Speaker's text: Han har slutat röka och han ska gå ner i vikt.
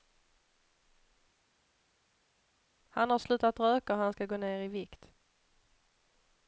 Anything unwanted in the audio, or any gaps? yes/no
no